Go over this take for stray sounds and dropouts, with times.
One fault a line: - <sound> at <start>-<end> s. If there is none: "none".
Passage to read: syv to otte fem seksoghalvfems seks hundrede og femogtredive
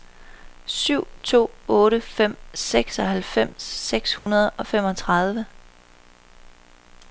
- dropout at 4.2-4.3 s